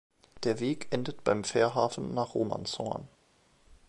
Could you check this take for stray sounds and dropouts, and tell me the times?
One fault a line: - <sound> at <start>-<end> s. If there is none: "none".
none